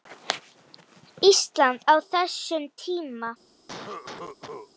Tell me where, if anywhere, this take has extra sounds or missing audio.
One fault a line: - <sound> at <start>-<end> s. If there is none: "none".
- cough at 3.7-4.7 s